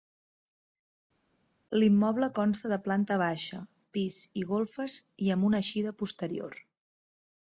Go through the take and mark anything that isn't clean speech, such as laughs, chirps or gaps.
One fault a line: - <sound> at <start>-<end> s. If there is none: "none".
none